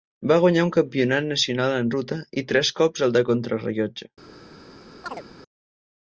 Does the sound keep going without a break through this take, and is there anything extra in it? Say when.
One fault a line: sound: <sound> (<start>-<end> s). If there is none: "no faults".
sound: chirp (5.0-5.2 s)